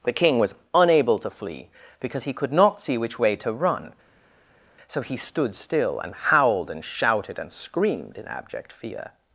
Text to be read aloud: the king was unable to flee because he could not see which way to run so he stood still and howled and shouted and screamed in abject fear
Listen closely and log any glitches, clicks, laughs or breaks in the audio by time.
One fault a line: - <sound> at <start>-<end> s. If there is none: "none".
none